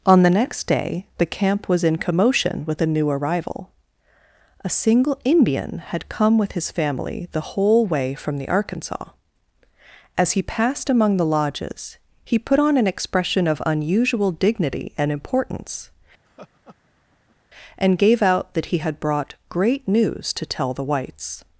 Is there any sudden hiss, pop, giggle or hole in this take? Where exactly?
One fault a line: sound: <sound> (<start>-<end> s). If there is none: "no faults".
sound: laugh (16.3-17.4 s)